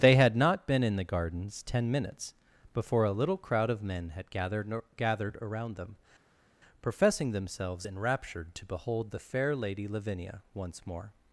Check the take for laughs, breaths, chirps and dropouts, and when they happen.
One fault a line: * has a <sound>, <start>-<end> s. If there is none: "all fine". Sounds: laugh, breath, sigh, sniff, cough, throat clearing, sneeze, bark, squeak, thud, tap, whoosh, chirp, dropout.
all fine